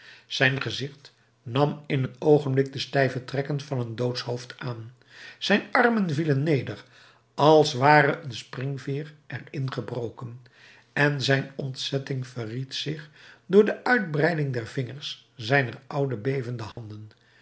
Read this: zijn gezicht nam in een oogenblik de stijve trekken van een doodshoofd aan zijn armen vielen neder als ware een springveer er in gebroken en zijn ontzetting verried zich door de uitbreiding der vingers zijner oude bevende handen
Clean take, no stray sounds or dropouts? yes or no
no